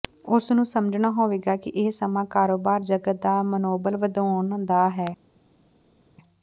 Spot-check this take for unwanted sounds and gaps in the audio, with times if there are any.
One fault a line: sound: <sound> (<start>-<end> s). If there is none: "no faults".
no faults